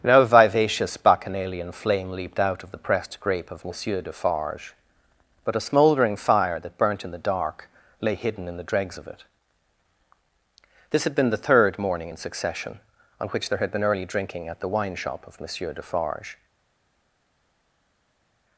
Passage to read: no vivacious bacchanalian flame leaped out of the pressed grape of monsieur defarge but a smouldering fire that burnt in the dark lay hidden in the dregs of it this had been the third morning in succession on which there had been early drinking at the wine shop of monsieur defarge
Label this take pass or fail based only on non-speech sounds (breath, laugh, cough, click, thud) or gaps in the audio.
pass